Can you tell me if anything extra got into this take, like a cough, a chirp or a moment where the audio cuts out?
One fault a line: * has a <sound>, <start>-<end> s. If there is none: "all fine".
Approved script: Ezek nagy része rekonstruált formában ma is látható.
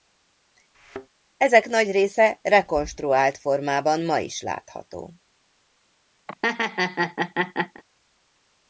* has a thud, 0.7-1.1 s
* has a laugh, 6.3-7.8 s